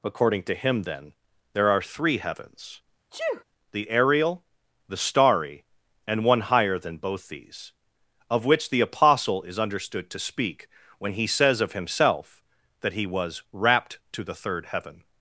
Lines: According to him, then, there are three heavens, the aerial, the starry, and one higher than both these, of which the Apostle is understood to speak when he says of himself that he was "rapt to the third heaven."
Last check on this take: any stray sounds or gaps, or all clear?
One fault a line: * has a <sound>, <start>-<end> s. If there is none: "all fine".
* has a sneeze, 3.1-3.4 s